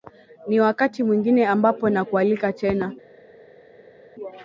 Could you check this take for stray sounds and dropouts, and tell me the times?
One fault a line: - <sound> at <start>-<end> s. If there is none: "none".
none